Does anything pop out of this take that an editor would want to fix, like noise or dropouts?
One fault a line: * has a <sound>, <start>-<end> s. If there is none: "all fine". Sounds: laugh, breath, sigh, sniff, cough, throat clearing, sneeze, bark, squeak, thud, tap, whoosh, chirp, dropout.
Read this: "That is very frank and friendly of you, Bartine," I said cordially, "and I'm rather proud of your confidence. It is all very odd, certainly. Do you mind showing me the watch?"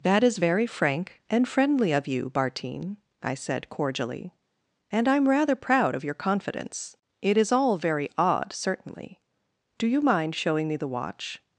all fine